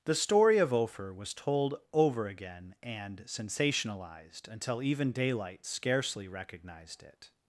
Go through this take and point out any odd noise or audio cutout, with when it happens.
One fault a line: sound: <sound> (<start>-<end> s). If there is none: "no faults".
no faults